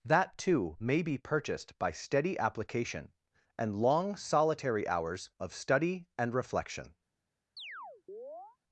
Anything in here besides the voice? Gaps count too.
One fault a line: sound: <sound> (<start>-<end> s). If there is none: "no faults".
sound: chirp (7.6-8.6 s)